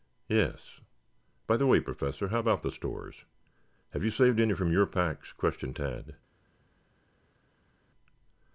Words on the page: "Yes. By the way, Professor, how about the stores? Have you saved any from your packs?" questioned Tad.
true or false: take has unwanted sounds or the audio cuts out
false